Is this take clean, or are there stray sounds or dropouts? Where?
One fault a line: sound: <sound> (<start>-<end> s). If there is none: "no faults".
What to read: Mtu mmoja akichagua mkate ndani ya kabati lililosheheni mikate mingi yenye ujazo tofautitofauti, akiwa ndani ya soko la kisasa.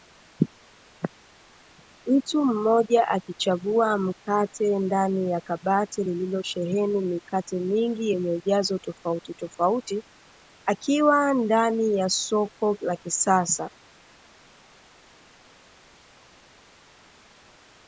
no faults